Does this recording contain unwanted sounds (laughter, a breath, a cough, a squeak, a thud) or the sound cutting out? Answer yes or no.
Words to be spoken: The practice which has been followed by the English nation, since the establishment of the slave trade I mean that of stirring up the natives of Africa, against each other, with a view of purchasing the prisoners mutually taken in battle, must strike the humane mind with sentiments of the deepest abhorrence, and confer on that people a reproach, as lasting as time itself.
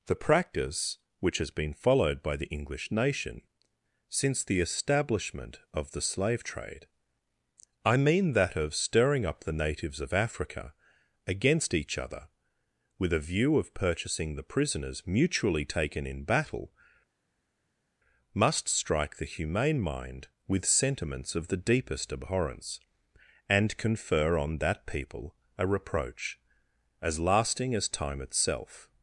no